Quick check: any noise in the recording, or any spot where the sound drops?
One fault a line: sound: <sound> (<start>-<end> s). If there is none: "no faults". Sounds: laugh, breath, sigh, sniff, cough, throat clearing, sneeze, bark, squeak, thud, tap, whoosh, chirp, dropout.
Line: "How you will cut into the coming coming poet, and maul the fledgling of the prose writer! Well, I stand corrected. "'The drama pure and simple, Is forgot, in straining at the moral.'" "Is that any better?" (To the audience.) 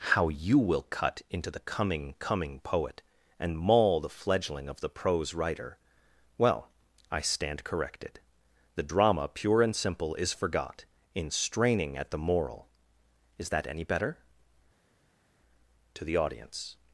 no faults